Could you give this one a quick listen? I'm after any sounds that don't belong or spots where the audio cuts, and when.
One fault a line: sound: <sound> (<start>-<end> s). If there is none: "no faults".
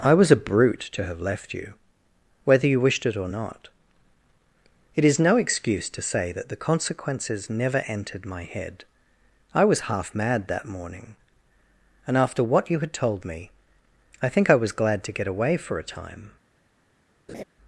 sound: laugh (17.3-17.4 s)